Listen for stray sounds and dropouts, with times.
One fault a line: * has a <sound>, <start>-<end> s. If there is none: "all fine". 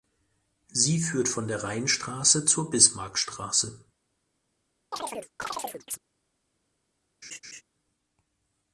* has a chirp, 4.9-6.0 s
* has a laugh, 7.2-7.6 s